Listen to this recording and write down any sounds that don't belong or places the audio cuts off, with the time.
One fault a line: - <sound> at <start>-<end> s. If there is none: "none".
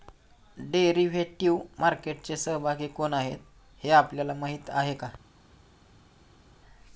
none